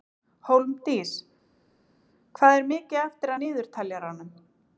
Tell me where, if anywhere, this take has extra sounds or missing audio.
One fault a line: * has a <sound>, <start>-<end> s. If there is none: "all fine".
all fine